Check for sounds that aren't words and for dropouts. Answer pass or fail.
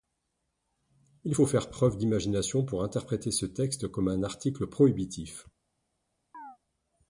fail